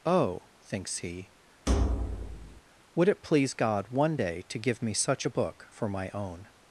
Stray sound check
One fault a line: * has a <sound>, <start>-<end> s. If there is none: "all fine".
* has a thud, 1.7-2.6 s